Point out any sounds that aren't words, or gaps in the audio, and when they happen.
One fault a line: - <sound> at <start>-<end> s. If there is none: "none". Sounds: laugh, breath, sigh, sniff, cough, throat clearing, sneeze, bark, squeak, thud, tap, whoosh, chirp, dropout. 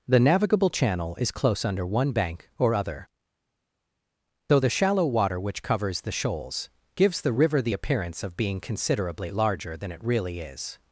none